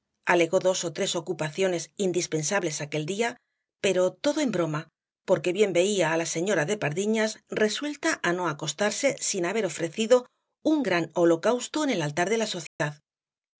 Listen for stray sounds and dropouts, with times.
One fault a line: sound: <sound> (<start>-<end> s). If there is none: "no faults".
sound: dropout (12.7-12.8 s)